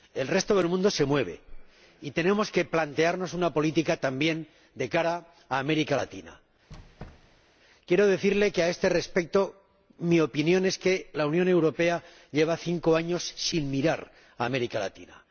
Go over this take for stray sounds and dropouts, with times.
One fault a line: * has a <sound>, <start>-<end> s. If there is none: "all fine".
* has a squeak, 6.7-7.5 s